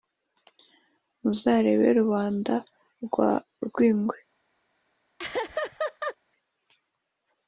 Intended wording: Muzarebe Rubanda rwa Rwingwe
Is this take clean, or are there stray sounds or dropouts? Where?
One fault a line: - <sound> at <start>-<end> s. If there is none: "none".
- laugh at 5.2-6.2 s